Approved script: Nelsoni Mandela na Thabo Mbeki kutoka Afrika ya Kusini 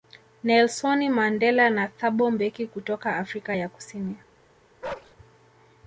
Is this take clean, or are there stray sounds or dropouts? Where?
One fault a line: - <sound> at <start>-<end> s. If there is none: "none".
- bark at 4.8-5.1 s